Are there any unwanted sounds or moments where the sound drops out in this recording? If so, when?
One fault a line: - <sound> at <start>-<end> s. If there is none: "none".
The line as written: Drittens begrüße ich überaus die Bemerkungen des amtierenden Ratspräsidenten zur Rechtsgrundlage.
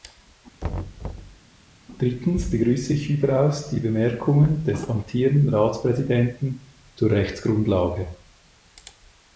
- thud at 0.6-1.4 s